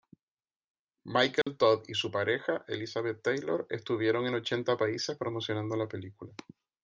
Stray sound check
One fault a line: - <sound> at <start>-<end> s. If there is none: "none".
- dropout at 1.4-1.5 s